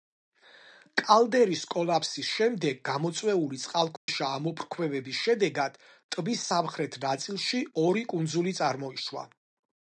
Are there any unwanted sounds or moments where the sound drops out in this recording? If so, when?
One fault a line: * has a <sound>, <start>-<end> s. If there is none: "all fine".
* has a dropout, 4.0-4.1 s